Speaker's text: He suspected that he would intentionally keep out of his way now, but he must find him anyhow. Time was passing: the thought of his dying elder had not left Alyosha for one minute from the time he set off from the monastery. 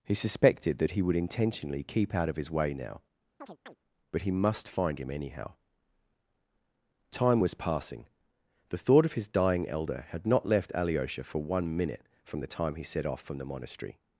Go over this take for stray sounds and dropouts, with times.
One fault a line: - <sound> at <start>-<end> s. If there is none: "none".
- chirp at 3.4-3.8 s